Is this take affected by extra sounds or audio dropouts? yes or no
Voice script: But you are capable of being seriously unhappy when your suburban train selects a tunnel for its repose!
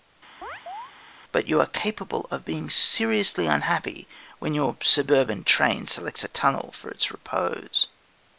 yes